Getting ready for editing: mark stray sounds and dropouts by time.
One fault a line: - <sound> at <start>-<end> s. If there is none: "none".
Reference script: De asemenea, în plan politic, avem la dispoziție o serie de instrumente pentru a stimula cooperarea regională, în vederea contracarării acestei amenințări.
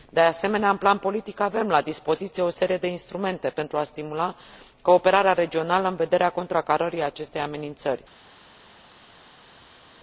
none